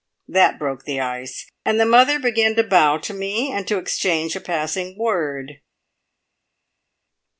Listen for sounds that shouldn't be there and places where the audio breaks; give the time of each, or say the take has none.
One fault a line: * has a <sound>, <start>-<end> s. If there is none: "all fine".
all fine